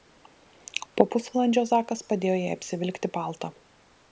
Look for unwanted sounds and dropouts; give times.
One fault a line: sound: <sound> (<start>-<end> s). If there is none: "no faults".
no faults